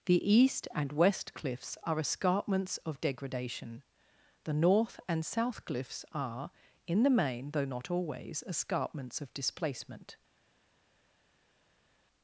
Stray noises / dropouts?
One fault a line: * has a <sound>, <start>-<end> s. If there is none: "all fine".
all fine